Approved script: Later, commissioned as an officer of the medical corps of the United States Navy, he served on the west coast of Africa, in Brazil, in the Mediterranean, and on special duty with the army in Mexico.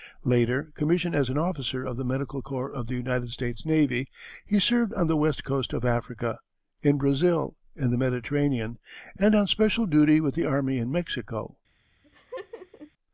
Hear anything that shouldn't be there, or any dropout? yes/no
yes